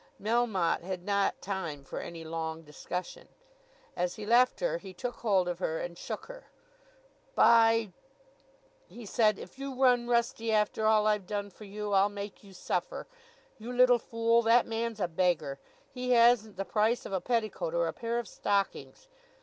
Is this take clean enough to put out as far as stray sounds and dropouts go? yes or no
yes